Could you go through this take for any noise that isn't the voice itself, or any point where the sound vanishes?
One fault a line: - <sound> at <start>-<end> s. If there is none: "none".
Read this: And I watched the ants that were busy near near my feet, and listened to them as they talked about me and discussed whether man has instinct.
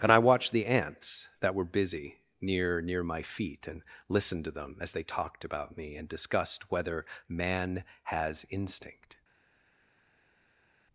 none